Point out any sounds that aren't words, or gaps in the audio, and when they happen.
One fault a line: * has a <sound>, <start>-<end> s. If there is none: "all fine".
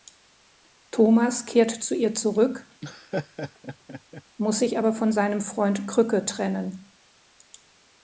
* has a laugh, 2.8-4.2 s